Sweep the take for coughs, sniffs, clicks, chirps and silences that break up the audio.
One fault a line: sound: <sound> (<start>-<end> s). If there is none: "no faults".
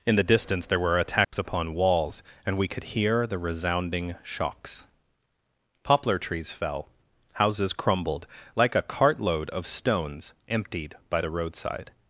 sound: dropout (1.2-1.3 s)